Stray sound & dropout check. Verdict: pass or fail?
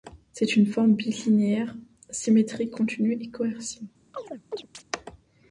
fail